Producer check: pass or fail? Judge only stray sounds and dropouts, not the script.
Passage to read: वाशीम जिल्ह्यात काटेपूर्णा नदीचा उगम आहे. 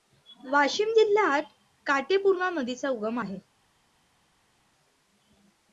pass